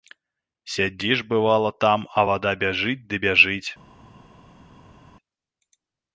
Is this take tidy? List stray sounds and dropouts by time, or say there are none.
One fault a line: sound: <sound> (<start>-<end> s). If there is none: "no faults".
no faults